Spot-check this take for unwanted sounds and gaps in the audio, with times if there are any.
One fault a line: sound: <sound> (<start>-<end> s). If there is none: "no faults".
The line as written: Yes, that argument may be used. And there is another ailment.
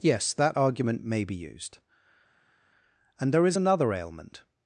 no faults